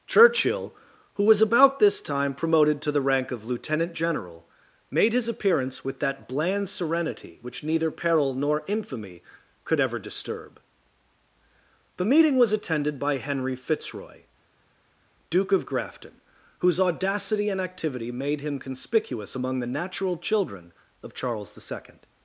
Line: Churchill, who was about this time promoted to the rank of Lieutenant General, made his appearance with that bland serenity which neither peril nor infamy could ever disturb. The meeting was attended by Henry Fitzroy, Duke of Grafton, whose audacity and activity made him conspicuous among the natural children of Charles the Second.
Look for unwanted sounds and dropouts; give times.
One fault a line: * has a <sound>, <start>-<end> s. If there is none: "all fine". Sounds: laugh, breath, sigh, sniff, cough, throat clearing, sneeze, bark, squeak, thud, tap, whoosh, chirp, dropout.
all fine